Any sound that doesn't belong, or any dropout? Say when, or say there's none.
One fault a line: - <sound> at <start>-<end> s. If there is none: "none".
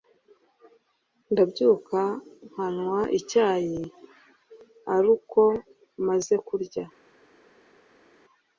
none